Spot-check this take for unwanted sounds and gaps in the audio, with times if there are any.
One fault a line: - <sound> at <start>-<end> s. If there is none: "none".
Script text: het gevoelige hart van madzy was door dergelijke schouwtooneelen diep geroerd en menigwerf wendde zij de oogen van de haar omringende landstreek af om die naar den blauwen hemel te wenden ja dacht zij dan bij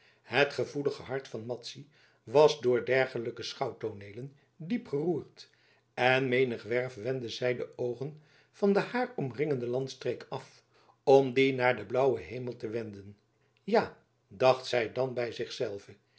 none